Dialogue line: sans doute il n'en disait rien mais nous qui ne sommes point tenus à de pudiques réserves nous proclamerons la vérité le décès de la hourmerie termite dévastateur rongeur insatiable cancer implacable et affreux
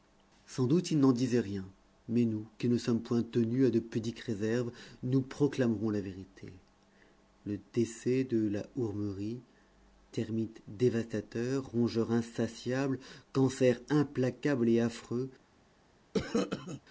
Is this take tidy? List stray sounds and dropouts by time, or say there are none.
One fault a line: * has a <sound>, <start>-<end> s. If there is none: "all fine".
* has a cough, 16.1-16.8 s